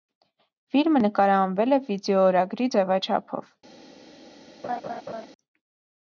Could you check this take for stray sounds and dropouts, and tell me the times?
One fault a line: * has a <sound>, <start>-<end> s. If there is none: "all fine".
* has a laugh, 4.6-5.3 s